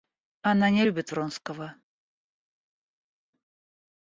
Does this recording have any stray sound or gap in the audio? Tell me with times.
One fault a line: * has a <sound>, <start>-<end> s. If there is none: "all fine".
all fine